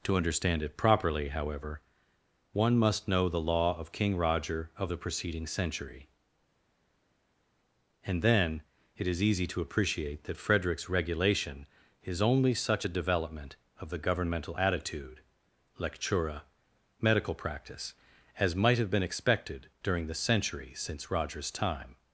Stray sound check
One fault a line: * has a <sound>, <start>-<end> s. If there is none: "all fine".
all fine